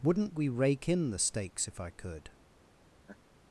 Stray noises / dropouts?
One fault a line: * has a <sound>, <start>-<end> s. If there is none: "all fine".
* has a laugh, 3.0-3.2 s